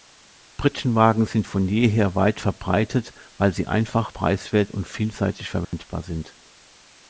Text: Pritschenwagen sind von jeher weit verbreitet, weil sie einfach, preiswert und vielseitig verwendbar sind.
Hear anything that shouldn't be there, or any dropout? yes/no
yes